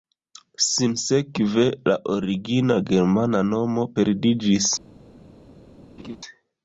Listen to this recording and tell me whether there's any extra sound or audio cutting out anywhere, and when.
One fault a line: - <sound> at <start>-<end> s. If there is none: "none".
- laugh at 6.0-6.2 s